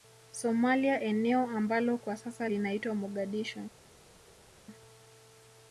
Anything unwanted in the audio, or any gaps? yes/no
no